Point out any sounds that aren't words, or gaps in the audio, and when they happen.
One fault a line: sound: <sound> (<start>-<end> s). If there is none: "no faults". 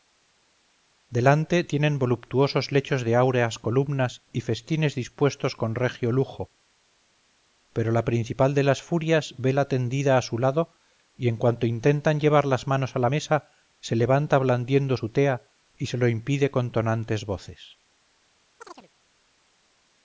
sound: chirp (18.6-18.9 s)